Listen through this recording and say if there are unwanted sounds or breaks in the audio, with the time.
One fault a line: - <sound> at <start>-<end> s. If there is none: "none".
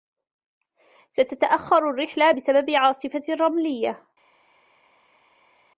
none